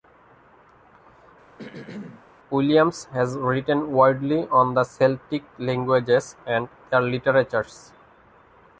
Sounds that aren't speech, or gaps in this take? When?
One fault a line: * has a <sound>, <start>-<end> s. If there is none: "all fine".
* has a throat clearing, 1.6-2.3 s